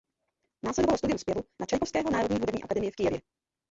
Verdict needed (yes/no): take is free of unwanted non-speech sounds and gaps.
yes